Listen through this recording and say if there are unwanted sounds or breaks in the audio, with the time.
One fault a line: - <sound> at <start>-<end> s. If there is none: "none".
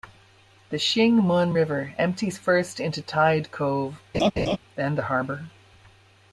- laugh at 4.1-4.6 s